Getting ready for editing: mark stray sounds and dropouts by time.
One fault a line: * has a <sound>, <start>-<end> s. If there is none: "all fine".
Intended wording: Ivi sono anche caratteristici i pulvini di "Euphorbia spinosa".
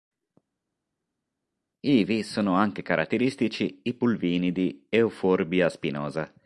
all fine